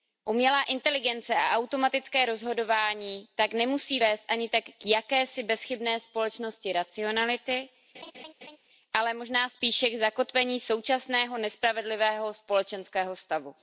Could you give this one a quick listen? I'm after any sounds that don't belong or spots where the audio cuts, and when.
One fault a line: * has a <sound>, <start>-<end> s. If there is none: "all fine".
* has a laugh, 7.9-8.6 s